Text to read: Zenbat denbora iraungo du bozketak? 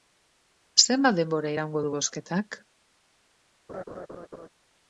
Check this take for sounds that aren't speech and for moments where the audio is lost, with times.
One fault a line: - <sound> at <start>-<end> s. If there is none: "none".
- laugh at 3.7-4.5 s